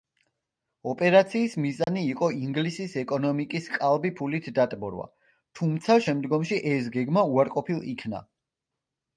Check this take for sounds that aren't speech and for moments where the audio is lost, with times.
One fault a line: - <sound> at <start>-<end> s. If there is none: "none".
- dropout at 1.8-1.9 s